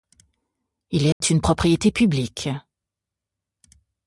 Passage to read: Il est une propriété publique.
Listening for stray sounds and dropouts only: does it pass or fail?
fail